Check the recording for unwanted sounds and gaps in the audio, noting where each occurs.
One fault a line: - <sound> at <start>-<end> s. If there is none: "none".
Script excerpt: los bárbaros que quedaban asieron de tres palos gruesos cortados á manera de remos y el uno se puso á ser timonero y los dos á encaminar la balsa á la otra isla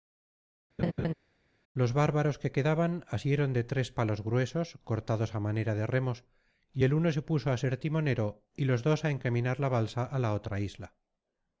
- laugh at 0.8-1.1 s